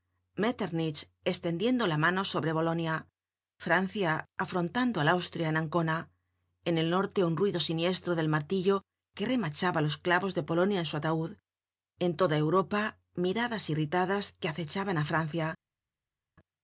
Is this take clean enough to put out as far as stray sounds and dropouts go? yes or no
yes